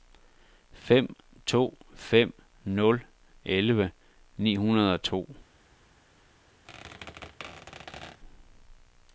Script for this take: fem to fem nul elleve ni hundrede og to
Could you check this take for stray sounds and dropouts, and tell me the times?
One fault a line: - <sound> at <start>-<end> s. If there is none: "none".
- squeak at 6.6-8.2 s